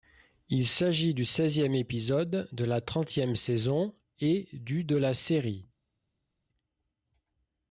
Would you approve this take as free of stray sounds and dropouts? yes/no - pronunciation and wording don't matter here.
yes